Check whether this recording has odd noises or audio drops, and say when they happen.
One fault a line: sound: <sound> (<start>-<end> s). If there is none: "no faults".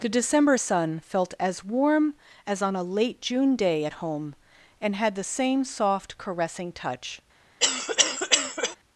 sound: cough (7.6-8.8 s)